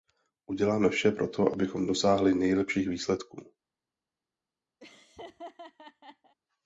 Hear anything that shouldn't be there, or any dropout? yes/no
yes